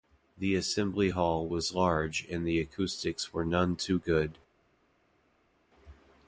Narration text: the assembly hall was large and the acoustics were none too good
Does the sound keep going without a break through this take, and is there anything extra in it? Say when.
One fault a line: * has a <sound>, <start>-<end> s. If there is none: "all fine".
all fine